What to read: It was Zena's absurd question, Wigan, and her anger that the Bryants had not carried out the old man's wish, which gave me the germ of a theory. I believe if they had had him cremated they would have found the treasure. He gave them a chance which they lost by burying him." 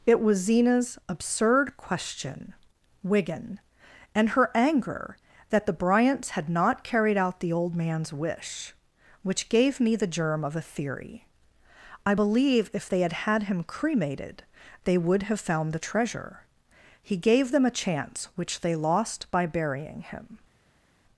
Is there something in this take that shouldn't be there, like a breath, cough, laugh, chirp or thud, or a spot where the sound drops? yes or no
no